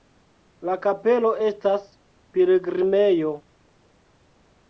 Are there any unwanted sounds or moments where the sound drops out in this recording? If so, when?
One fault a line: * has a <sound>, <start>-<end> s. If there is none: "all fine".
all fine